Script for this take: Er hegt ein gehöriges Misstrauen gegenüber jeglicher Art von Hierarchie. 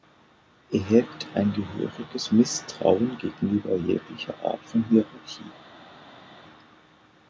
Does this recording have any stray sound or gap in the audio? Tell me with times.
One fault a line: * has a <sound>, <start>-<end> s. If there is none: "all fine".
all fine